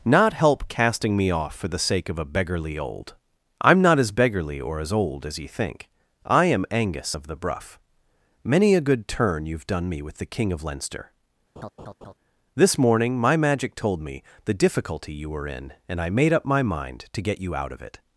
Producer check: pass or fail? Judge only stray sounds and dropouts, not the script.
fail